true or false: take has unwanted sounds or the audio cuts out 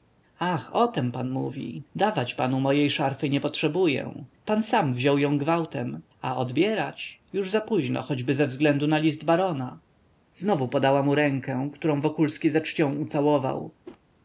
true